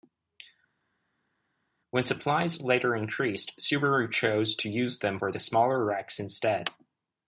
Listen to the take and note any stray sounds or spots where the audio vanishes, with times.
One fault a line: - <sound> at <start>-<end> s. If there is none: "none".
none